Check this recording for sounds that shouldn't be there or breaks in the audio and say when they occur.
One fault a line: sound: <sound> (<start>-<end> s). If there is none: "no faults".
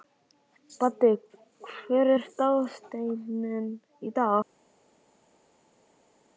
no faults